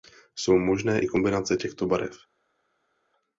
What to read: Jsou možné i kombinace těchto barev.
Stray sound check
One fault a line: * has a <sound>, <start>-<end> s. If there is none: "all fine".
all fine